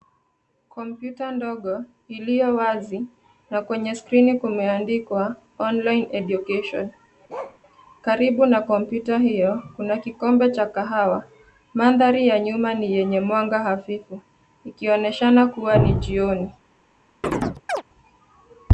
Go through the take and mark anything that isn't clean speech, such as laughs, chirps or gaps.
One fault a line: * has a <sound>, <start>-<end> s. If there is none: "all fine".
* has a bark, 7.3-7.6 s
* has a chirp, 17.2-17.8 s